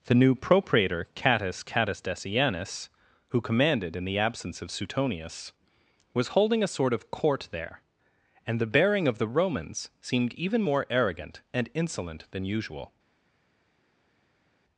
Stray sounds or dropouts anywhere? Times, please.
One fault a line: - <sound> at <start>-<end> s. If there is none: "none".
none